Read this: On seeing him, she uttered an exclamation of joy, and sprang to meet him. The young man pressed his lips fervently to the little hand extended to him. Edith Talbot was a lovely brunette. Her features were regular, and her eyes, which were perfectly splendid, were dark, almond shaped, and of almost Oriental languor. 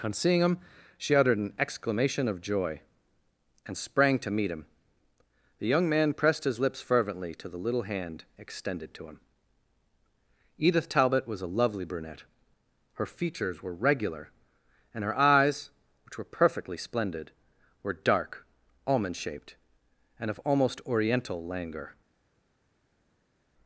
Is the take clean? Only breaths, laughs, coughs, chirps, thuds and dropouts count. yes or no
yes